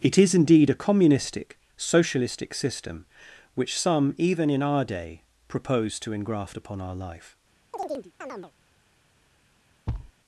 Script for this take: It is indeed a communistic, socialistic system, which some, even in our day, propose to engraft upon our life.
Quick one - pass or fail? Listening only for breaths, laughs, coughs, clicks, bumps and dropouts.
fail